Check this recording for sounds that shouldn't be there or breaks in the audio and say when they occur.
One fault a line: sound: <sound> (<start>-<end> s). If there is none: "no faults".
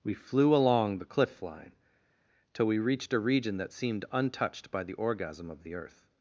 no faults